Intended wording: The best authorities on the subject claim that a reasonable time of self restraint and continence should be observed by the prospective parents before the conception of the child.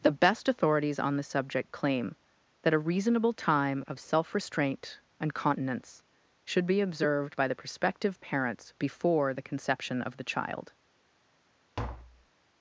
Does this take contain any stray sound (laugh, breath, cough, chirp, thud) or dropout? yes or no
yes